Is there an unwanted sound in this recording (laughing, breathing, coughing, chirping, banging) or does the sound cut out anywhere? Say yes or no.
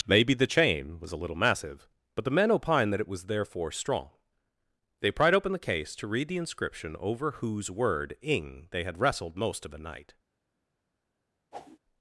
yes